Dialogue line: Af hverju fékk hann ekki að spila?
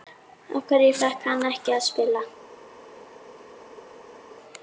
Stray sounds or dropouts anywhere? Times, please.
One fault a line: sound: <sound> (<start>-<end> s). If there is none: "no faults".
no faults